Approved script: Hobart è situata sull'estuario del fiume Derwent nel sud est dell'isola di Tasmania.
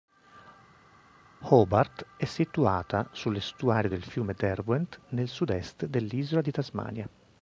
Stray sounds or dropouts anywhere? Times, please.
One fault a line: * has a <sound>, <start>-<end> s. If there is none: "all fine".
all fine